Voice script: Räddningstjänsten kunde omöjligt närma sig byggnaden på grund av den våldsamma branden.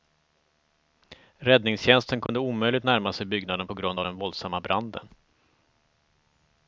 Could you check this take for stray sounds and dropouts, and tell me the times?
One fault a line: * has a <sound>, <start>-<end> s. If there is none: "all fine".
* has a dropout, 2.3-2.3 s